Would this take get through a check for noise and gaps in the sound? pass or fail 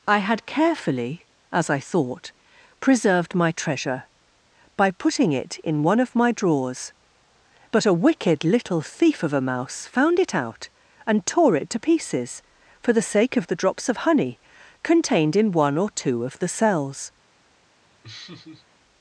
fail